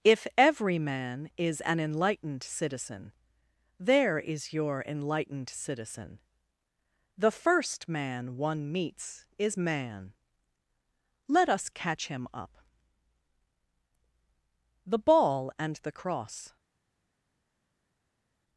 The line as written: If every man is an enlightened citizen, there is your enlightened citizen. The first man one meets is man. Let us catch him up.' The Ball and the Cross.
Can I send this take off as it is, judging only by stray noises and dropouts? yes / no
yes